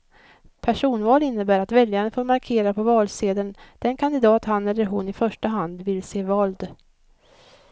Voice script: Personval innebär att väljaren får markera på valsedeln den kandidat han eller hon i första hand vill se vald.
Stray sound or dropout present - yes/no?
no